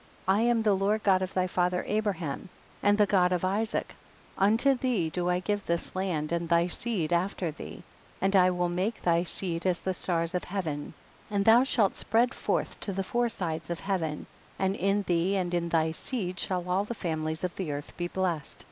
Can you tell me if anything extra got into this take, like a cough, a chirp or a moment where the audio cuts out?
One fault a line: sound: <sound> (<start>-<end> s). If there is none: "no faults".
no faults